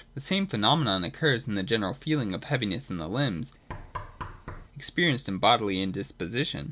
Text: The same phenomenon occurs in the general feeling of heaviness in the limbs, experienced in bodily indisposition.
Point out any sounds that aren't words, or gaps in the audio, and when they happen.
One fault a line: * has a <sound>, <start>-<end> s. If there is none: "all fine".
* has a thud, 3.7-4.7 s